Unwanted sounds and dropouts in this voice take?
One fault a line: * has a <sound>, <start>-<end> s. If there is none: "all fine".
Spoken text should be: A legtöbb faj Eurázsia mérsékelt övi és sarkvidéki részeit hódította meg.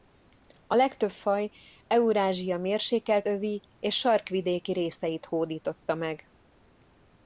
all fine